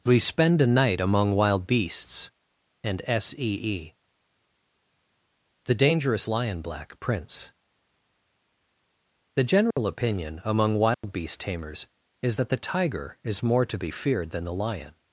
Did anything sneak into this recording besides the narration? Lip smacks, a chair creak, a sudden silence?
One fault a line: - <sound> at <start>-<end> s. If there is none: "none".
- dropout at 9.7-9.8 s
- dropout at 10.9-11.0 s